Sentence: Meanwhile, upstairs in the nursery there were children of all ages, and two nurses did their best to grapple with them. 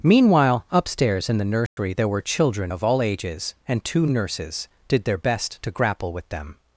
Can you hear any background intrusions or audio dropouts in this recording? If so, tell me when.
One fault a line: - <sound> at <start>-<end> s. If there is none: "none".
- dropout at 1.7-1.8 s